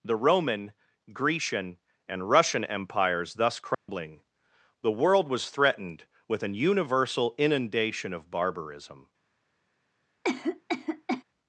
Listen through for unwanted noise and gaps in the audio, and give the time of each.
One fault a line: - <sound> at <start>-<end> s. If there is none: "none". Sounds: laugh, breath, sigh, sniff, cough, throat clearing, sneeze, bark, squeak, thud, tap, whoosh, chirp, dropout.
- dropout at 3.7-3.9 s
- cough at 10.2-11.2 s